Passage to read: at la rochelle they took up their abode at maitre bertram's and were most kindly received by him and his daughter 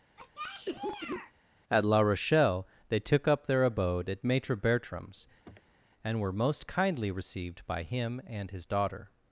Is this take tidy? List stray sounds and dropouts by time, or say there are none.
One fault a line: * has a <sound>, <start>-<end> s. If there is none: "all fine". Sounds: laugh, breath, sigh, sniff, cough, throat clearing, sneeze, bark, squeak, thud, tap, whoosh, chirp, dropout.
* has a cough, 0.2-1.3 s
* has a sniff, 5.4-5.8 s